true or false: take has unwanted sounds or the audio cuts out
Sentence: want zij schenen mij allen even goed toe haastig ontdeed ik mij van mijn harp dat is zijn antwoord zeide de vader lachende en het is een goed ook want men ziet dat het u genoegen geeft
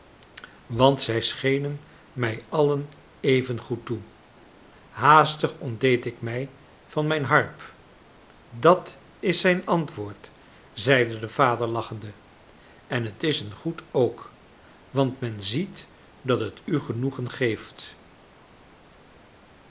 false